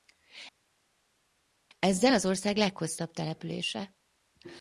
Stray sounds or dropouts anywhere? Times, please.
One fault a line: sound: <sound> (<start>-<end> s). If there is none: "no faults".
no faults